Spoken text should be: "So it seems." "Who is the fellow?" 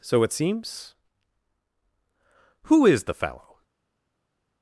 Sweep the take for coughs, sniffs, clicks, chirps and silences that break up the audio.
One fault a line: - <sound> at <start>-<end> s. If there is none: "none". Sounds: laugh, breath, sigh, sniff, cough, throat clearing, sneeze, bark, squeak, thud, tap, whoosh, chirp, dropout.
none